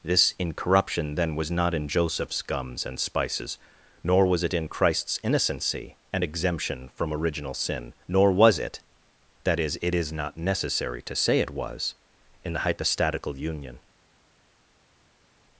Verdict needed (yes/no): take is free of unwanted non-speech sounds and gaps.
yes